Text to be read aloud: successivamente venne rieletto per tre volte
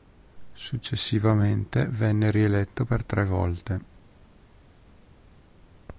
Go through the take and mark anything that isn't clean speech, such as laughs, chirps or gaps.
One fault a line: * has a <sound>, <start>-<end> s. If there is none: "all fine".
all fine